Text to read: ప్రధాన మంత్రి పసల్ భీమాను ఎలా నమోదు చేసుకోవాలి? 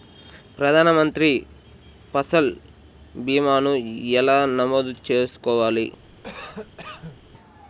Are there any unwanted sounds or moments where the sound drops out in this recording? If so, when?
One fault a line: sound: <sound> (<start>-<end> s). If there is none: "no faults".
sound: cough (6.2-7.2 s)